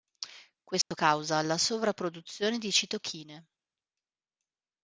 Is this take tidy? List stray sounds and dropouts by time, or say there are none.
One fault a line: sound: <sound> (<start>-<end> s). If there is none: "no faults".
sound: dropout (0.8-0.9 s)